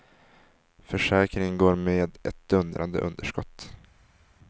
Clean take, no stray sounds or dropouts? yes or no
yes